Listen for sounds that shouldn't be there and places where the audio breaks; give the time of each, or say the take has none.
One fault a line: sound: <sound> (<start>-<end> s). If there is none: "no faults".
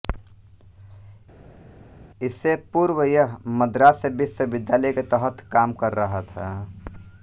no faults